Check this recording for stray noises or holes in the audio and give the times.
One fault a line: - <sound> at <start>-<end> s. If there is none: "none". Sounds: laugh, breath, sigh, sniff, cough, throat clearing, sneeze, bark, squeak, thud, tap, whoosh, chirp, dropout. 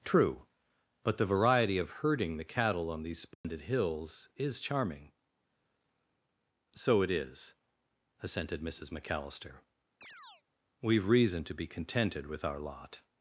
- dropout at 3.3-3.4 s
- chirp at 10.0-10.4 s